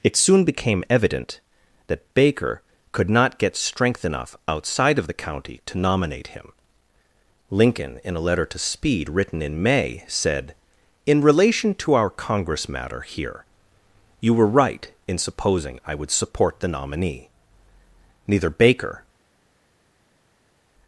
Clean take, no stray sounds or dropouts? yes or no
yes